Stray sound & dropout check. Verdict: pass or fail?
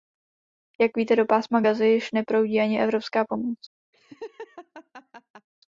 fail